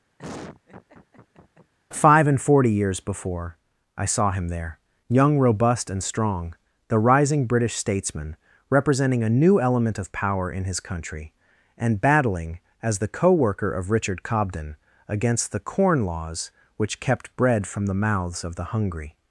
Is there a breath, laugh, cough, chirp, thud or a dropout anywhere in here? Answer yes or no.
yes